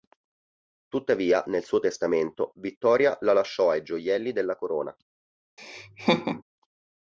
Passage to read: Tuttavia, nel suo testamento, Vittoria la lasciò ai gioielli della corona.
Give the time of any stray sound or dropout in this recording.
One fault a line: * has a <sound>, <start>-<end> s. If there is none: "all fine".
* has a laugh, 5.6-6.4 s